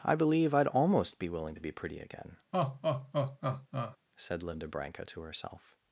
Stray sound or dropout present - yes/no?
yes